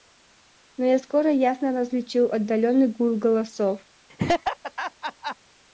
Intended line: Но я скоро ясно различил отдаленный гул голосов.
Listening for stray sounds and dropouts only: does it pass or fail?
fail